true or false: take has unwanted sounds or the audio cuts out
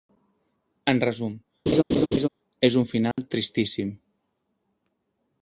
true